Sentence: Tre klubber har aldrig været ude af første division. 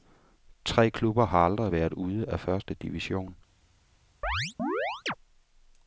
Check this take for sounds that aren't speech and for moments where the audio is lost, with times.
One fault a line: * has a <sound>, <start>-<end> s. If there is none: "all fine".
* has a chirp, 4.2-5.1 s